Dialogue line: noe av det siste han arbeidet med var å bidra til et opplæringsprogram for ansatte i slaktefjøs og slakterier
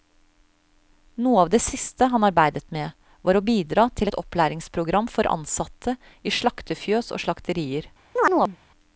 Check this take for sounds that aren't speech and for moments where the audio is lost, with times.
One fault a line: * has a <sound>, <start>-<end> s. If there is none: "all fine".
* has a chirp, 8.2-8.6 s